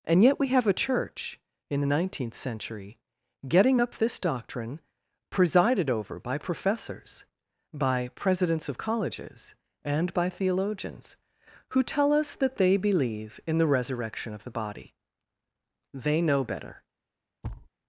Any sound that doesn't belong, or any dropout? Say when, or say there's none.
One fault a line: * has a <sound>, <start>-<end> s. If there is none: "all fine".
* has a thud, 17.4-17.7 s